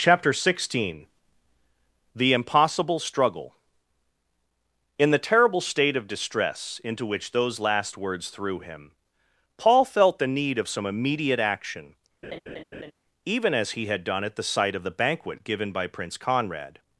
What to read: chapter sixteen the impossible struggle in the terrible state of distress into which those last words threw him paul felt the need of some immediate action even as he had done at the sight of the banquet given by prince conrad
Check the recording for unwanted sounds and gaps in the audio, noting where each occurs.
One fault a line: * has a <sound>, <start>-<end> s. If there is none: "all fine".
* has a laugh, 12.2-12.9 s